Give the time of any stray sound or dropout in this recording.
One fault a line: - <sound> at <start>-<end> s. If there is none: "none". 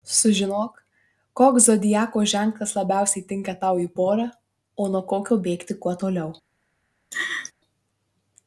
- laugh at 7.1-7.5 s